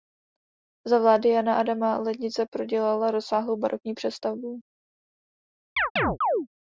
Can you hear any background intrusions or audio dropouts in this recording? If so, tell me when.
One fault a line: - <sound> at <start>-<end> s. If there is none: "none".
- chirp at 5.8-6.5 s